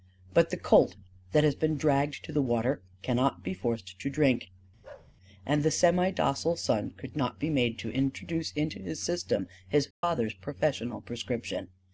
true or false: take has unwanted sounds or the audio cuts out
true